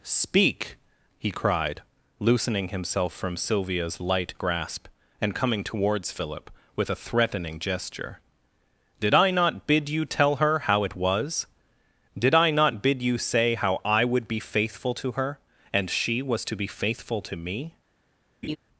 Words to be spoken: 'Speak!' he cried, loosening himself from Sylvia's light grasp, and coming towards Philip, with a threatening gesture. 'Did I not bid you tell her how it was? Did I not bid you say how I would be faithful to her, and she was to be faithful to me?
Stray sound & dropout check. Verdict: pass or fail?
fail